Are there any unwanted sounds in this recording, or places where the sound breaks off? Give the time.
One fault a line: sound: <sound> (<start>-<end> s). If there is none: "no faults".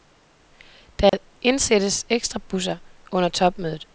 sound: dropout (1.1-1.1 s)